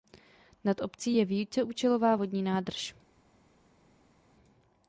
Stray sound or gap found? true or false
false